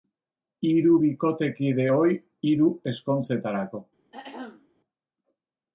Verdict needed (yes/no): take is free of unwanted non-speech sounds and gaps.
no